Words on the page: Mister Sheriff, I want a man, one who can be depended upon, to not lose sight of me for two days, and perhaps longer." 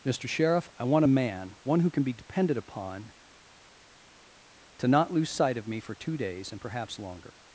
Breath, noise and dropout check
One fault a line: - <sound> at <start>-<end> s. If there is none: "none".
none